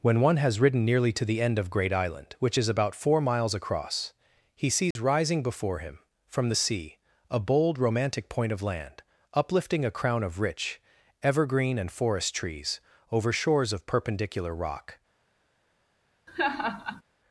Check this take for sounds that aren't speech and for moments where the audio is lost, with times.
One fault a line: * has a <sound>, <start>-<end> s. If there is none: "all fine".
* has a dropout, 4.9-5.0 s
* has a laugh, 16.3-17.0 s